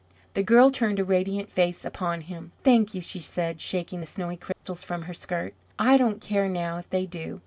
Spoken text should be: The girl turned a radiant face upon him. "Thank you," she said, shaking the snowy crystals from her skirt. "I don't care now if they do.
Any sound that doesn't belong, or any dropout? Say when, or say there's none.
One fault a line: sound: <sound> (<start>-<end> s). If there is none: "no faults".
sound: dropout (4.5-4.6 s)